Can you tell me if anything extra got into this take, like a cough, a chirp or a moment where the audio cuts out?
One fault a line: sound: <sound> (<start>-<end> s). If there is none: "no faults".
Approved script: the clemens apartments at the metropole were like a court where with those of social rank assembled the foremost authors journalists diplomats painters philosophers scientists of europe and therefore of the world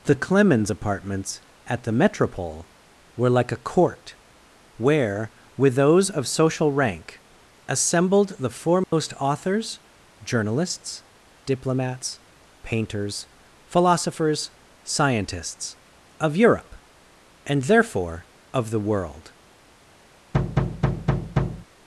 sound: dropout (8.8-8.9 s)
sound: thud (20.3-21.7 s)